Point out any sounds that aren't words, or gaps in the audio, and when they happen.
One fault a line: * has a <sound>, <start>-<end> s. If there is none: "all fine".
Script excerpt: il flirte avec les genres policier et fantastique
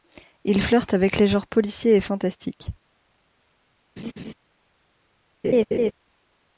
* has a laugh, 4.0-4.3 s
* has a laugh, 5.4-5.9 s